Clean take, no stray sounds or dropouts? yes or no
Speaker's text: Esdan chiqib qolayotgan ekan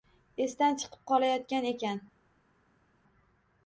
yes